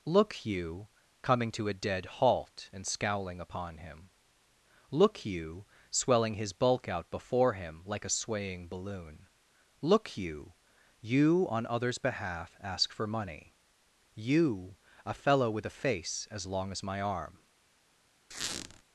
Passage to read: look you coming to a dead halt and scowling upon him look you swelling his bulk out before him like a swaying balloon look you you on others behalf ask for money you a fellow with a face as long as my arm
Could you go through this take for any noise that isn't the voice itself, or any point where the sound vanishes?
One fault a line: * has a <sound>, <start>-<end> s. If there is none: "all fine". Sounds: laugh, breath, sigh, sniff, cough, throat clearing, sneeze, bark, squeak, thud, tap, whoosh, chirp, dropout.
* has a squeak, 18.3-18.8 s